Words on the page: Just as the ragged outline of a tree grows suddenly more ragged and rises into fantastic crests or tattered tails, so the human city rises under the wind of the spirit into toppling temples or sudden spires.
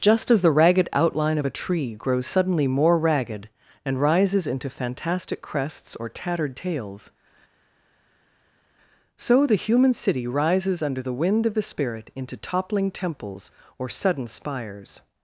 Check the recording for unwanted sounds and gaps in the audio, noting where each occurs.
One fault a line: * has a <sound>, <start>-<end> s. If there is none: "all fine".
all fine